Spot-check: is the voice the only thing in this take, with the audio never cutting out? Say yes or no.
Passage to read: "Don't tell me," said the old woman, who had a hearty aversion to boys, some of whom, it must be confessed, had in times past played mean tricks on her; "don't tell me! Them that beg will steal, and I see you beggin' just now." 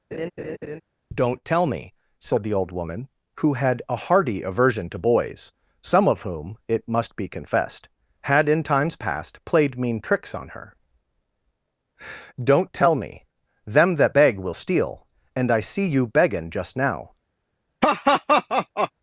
no